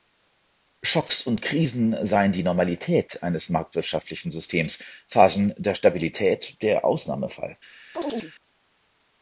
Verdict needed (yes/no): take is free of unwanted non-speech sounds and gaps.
no